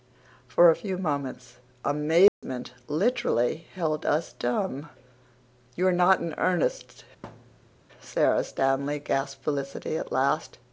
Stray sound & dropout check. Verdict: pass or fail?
fail